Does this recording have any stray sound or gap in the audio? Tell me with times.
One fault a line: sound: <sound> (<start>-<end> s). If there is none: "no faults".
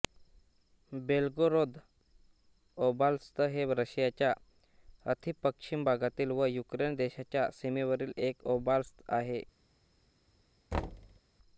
sound: thud (10.7-11.2 s)